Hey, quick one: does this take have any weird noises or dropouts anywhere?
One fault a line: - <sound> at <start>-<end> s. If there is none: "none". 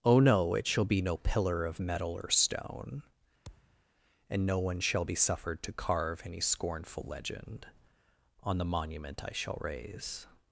- thud at 3.4-3.8 s